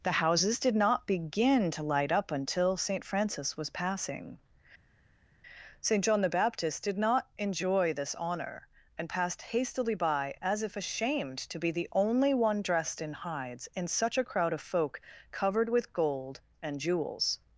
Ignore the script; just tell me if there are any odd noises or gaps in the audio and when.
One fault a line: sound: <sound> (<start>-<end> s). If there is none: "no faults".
no faults